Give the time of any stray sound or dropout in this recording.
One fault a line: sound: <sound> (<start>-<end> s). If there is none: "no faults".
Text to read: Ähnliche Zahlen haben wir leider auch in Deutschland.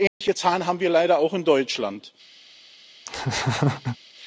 sound: dropout (0.1-0.2 s)
sound: laugh (3.1-4.0 s)